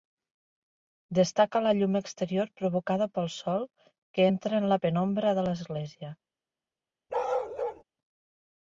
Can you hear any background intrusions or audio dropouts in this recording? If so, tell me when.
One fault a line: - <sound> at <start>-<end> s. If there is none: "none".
- bark at 7.1-7.8 s